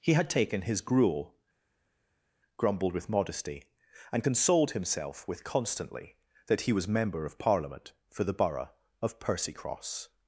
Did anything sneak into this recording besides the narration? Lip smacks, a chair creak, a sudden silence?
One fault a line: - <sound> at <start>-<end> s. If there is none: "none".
none